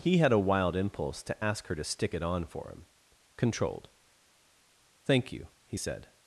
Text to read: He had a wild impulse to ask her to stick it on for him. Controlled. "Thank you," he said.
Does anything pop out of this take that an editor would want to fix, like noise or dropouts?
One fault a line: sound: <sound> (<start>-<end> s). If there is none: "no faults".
no faults